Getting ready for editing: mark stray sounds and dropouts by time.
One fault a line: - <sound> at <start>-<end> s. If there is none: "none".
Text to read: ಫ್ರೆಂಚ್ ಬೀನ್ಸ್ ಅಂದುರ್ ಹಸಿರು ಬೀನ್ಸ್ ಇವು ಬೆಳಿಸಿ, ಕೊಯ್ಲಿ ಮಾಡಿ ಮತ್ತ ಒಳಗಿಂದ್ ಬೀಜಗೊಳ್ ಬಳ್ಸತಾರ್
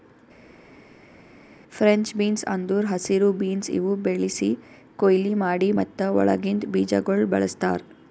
none